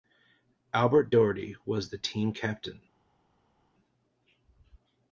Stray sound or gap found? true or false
false